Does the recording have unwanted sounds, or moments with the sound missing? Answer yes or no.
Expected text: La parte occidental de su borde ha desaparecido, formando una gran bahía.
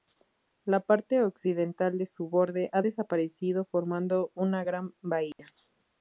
yes